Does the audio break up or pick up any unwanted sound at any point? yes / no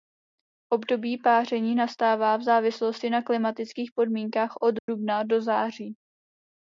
yes